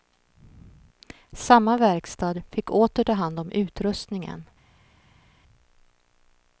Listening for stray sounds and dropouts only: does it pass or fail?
pass